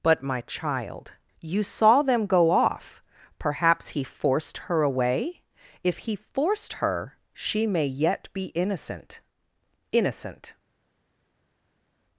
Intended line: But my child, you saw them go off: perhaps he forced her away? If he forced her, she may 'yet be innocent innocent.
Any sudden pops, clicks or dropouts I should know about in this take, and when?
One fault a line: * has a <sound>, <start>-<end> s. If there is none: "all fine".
all fine